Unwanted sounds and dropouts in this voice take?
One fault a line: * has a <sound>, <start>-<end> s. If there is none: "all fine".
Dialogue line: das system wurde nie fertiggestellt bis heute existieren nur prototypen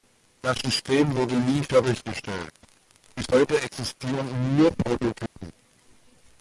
* has a dropout, 5.3-5.4 s